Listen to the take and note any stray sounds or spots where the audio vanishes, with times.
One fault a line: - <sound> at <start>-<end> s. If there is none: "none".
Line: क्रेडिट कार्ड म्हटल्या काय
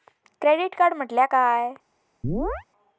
- chirp at 2.2-2.6 s